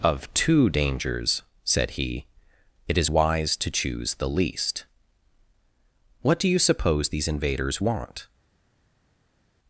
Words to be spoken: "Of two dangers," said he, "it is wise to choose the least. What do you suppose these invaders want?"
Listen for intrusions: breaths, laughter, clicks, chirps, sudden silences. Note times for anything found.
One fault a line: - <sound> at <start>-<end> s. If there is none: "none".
none